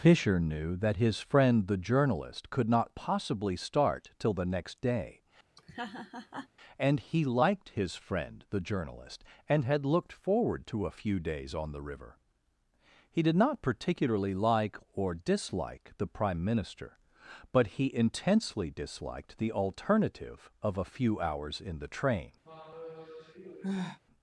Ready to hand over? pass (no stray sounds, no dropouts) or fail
fail